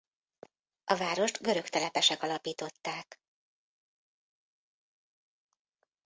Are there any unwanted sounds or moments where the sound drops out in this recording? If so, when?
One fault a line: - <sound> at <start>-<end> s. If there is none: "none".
none